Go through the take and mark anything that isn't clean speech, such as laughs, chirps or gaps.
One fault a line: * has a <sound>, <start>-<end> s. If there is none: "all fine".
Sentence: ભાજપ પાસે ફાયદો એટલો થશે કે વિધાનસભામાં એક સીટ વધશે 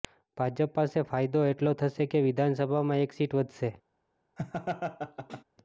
* has a laugh, 4.4-5.4 s